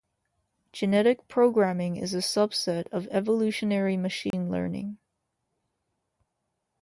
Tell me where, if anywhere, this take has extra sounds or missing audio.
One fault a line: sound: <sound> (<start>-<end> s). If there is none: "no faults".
sound: dropout (4.3-4.3 s)